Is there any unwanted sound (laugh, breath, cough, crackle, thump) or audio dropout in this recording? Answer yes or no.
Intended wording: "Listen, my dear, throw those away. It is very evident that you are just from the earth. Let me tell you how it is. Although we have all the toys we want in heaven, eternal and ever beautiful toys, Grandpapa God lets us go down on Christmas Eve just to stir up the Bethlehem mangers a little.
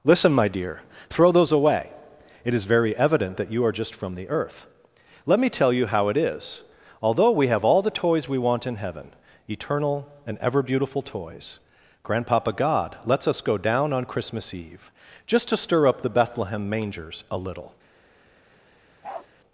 yes